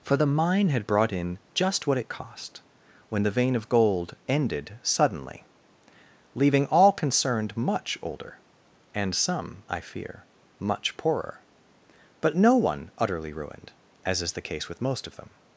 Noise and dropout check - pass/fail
pass